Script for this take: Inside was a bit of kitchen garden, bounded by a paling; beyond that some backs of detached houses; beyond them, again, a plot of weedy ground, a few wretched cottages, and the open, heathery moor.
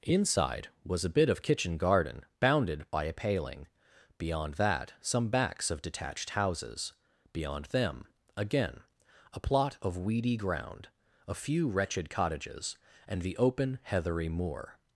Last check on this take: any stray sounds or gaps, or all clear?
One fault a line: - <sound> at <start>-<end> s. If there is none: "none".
none